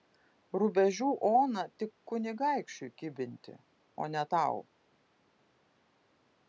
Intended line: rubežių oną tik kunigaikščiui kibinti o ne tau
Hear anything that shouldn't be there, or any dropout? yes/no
no